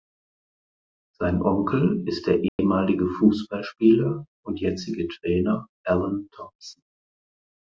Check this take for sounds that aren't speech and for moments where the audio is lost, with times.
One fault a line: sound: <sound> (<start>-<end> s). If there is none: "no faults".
sound: dropout (2.5-2.6 s)